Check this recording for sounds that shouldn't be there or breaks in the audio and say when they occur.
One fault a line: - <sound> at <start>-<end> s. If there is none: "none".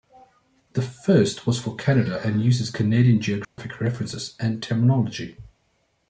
- dropout at 3.4-3.6 s